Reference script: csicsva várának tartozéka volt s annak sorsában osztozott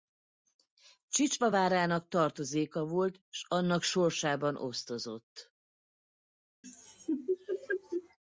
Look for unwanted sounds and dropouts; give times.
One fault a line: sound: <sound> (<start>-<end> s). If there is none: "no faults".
sound: laugh (6.6-8.2 s)